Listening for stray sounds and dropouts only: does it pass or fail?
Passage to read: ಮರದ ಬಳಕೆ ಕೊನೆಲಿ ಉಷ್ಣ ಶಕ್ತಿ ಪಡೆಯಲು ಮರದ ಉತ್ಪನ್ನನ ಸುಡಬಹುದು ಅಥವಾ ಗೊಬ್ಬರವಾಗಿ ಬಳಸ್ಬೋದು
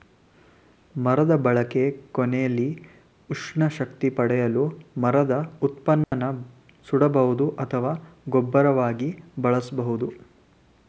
fail